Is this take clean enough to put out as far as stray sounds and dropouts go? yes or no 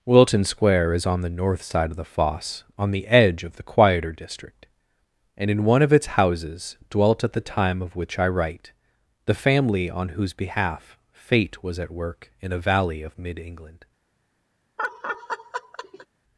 no